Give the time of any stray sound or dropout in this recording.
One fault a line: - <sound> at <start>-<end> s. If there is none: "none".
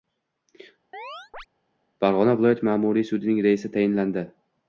- chirp at 0.9-1.5 s